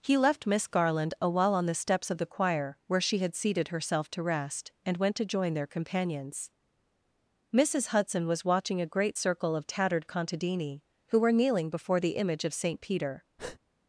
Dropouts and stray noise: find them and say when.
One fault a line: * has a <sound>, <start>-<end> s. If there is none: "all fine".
* has a breath, 13.4-13.6 s